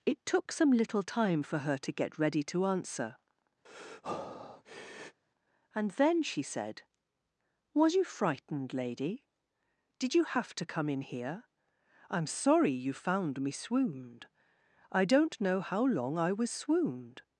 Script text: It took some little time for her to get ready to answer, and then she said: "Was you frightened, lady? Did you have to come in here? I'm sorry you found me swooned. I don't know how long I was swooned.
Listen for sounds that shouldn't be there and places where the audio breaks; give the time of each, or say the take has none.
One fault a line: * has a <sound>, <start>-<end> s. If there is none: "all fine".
* has a breath, 3.6-5.2 s